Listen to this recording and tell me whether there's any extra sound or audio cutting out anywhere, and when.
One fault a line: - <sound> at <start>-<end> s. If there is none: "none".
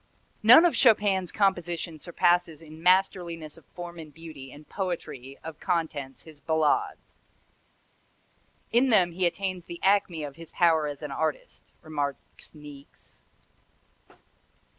none